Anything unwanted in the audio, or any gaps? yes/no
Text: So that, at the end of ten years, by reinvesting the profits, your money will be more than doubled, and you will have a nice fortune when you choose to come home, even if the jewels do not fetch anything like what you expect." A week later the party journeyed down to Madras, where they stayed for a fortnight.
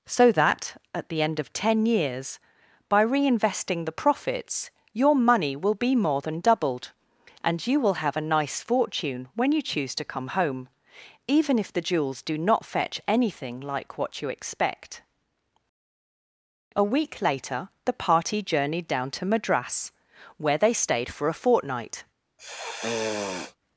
yes